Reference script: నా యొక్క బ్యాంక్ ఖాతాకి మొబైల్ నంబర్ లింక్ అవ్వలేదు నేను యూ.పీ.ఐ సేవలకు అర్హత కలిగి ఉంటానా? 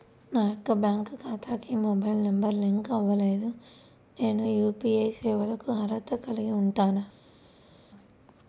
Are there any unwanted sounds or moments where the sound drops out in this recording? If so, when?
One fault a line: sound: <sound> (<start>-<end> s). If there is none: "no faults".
no faults